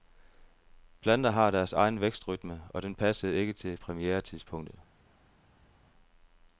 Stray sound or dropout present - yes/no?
no